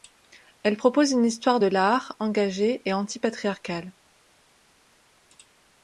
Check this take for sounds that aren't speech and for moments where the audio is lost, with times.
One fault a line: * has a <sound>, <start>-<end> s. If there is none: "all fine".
all fine